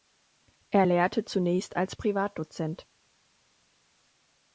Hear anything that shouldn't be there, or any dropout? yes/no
no